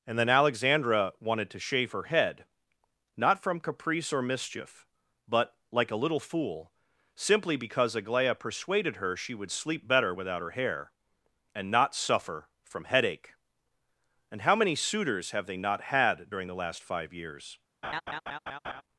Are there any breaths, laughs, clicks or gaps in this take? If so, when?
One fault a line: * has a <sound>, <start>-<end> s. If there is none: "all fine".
* has a laugh, 17.8-18.8 s